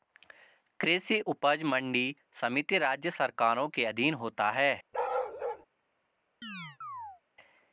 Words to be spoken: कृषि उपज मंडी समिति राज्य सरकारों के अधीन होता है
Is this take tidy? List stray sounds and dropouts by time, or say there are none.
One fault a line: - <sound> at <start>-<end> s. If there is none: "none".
- bark at 4.9-5.7 s
- chirp at 6.4-7.2 s